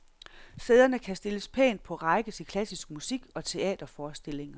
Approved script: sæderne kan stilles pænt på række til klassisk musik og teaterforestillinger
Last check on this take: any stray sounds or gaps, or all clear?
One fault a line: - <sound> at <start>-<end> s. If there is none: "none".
none